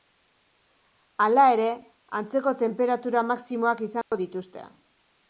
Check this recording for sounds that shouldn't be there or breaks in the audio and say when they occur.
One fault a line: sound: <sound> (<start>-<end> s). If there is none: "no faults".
sound: dropout (4.0-4.1 s)